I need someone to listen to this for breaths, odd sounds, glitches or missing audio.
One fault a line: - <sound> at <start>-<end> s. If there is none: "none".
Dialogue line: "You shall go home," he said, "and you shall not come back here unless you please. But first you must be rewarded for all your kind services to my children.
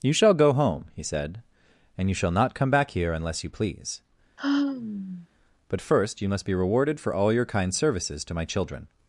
- sigh at 4.4-5.3 s